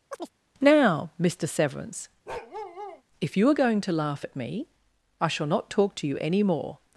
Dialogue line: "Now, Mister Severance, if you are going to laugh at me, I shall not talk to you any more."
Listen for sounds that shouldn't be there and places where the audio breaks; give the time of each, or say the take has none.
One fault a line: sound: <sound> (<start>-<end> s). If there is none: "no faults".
sound: chirp (0.1-0.3 s)
sound: bark (2.3-3.0 s)